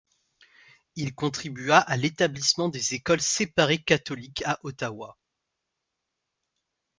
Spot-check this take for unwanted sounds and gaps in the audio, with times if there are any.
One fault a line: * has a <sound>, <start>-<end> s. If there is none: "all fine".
all fine